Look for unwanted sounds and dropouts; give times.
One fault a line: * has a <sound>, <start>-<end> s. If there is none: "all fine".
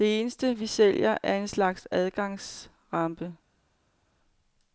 all fine